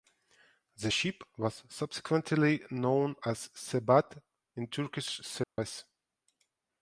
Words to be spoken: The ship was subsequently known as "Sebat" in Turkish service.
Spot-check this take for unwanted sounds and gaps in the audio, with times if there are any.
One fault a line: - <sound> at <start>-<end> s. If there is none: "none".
- dropout at 5.4-5.6 s